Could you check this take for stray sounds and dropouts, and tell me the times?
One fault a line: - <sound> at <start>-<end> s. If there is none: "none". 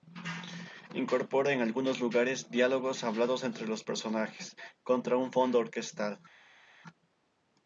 none